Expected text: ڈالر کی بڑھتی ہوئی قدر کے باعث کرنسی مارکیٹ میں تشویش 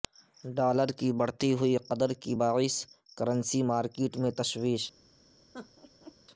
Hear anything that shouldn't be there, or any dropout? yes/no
yes